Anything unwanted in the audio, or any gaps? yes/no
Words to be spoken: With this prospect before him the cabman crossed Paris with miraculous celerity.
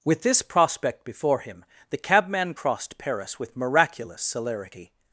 no